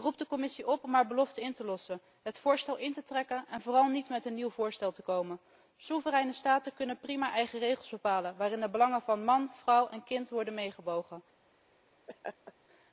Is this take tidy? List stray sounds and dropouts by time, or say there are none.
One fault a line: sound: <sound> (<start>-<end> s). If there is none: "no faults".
sound: laugh (12.1-12.5 s)